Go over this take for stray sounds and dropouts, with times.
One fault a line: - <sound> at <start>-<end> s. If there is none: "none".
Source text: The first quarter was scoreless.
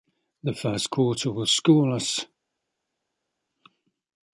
none